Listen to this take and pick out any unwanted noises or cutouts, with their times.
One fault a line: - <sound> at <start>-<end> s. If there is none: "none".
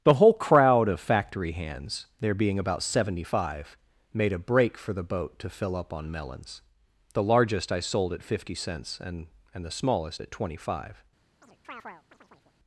- chirp at 11.4-12.6 s